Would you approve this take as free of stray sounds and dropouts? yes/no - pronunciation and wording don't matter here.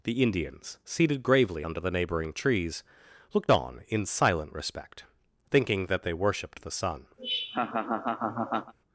no